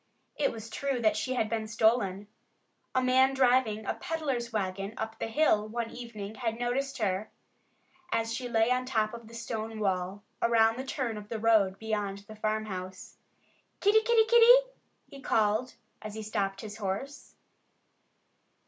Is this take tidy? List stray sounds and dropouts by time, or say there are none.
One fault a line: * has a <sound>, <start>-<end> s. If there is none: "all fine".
all fine